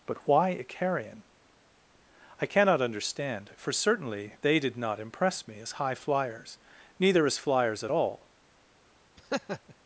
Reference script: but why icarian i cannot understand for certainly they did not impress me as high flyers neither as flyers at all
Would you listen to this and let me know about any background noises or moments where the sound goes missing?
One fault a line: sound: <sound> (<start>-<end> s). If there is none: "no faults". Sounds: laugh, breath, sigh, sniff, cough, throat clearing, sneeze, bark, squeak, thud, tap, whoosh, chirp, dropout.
sound: laugh (9.2-9.7 s)